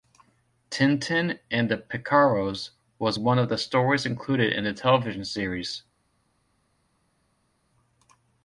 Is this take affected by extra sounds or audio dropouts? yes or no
no